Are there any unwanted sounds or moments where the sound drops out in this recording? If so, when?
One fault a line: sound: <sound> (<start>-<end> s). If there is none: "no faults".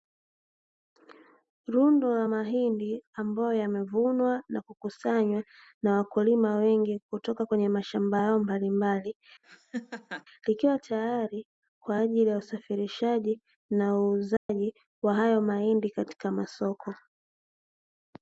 sound: laugh (9.4-10.3 s)
sound: dropout (14.4-14.5 s)